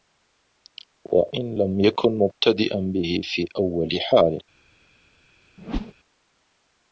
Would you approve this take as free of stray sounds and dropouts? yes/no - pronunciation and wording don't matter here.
no